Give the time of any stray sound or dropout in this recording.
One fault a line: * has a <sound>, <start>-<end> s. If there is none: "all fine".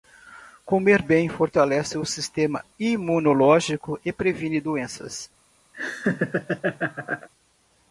* has a laugh, 5.7-7.3 s